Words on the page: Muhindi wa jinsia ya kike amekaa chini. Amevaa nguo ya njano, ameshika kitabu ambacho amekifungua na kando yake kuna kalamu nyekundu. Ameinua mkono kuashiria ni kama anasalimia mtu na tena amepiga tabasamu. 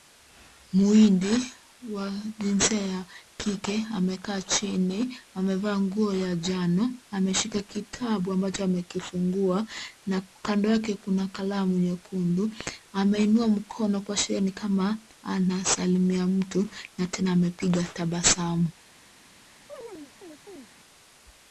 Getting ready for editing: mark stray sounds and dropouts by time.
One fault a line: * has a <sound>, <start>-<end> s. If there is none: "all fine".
* has a chirp, 19.7-20.7 s